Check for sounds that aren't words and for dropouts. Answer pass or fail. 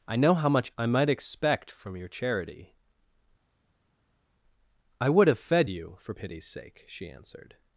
pass